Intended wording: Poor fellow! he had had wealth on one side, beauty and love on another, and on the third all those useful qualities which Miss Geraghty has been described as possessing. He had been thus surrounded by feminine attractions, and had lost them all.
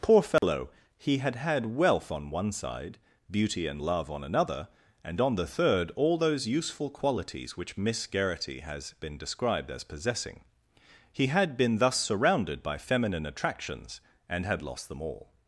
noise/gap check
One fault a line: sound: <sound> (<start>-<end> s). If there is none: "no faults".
sound: dropout (0.4-0.4 s)